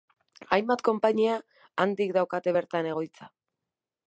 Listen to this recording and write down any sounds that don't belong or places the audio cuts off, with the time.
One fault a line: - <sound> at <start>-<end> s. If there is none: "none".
none